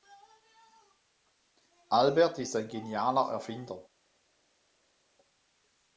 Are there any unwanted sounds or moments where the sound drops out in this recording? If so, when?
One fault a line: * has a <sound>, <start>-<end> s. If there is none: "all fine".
all fine